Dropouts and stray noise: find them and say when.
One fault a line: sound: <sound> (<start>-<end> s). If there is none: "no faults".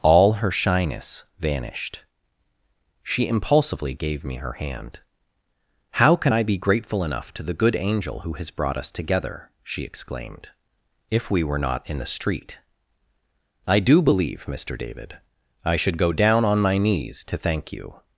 no faults